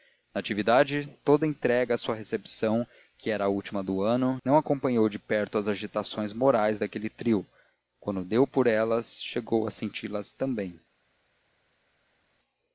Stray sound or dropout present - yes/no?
no